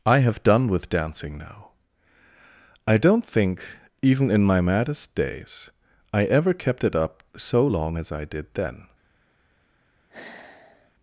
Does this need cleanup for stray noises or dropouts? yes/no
yes